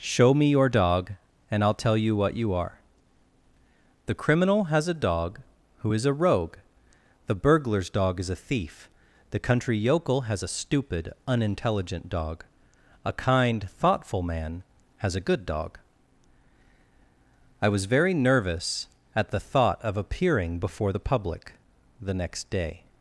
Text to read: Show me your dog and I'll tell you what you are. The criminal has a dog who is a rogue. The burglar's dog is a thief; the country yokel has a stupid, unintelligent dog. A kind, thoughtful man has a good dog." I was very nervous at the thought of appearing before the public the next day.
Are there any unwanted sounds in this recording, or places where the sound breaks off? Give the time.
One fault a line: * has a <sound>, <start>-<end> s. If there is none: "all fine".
all fine